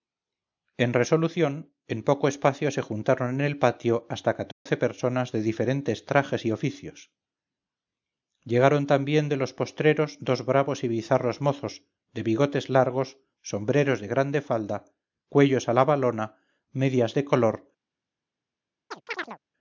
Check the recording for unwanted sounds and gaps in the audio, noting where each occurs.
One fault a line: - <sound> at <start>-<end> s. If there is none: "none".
- dropout at 4.5-4.7 s
- chirp at 18.9-19.4 s